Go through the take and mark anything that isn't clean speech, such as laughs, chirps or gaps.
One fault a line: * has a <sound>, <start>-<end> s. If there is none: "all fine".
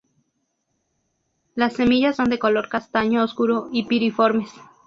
all fine